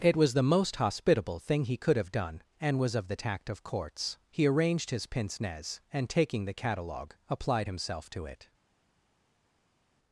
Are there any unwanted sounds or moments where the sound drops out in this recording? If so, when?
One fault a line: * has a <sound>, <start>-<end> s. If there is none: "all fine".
all fine